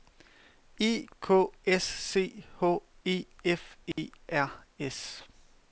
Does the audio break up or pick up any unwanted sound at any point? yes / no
yes